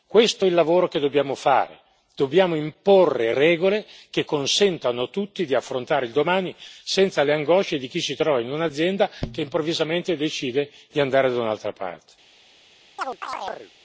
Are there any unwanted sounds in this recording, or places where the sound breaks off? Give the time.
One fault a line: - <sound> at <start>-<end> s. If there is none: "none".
- chirp at 13.0-13.7 s